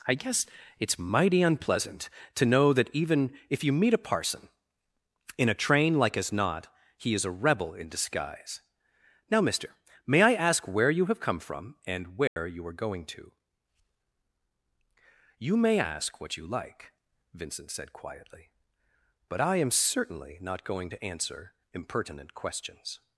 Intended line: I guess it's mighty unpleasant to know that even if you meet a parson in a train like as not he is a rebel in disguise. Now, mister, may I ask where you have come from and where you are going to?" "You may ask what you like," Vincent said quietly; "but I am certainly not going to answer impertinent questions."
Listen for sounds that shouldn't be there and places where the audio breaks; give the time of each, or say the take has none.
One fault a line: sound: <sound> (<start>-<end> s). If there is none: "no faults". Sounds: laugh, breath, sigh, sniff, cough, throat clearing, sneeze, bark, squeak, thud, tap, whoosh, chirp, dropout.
sound: dropout (12.3-12.4 s)